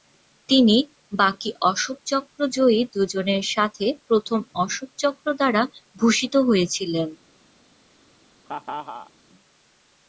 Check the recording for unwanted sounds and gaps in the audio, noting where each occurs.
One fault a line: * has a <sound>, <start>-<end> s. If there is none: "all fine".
* has a laugh, 8.5-9.1 s